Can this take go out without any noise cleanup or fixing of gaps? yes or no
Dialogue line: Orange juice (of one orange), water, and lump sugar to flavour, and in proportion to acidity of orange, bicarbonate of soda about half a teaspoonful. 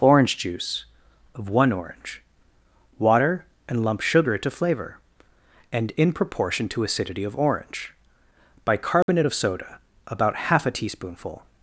no